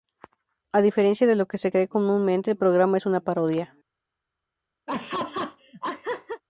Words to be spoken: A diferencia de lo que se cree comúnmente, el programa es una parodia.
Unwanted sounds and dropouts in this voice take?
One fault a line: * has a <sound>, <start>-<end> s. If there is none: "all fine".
* has a laugh, 4.9-6.4 s